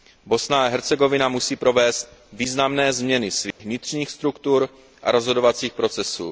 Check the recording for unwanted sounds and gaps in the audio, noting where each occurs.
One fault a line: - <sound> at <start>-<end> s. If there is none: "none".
- dropout at 3.5-3.6 s